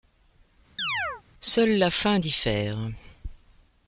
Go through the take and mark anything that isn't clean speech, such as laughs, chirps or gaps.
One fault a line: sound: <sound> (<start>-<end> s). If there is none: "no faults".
sound: chirp (0.8-1.2 s)